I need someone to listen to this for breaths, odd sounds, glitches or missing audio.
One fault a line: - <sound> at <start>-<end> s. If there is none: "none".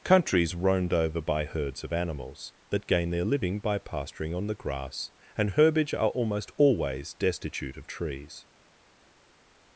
none